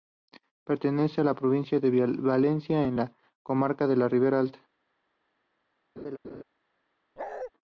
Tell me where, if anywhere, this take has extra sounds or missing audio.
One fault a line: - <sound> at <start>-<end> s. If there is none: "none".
- laugh at 6.0-6.4 s
- bark at 7.2-7.5 s